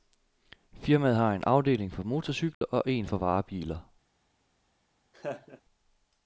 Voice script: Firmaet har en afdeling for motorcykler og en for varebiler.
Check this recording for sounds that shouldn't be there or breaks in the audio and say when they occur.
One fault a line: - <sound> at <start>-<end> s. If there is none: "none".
- dropout at 2.5-2.6 s
- laugh at 5.1-5.6 s